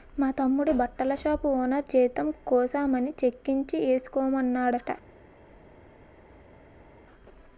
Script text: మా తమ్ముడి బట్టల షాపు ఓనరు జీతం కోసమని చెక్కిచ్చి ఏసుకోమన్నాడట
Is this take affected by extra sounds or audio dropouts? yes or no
no